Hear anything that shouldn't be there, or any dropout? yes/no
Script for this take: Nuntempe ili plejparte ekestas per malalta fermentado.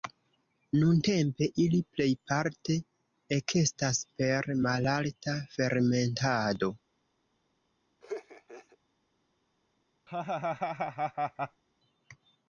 yes